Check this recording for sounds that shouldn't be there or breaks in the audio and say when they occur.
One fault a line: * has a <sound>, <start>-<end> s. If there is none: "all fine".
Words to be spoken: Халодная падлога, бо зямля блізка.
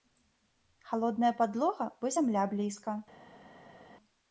all fine